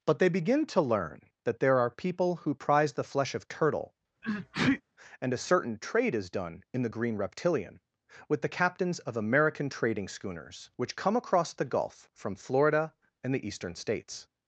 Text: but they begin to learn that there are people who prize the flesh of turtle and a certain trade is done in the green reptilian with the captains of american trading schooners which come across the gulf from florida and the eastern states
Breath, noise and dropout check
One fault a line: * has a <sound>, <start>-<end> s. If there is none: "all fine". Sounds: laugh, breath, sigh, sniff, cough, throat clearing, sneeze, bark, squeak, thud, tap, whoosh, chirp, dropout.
* has a sneeze, 4.2-4.8 s